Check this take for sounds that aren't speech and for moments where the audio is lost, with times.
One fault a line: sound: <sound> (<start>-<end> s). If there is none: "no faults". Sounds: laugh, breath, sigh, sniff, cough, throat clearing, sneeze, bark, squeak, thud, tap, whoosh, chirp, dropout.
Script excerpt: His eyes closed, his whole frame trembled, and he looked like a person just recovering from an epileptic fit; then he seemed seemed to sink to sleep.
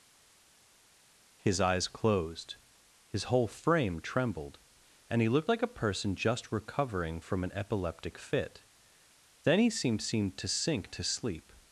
no faults